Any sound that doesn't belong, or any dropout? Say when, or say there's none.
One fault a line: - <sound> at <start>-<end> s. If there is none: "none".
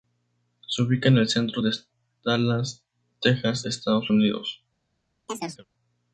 - chirp at 5.3-5.7 s